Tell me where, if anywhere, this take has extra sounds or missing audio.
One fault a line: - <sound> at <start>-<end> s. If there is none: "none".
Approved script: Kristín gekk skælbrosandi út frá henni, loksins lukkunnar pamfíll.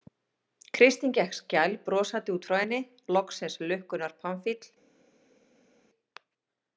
none